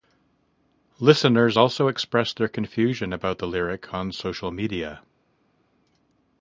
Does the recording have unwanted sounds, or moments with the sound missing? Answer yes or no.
no